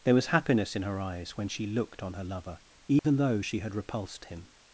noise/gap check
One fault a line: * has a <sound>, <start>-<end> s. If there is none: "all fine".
* has a dropout, 3.0-3.0 s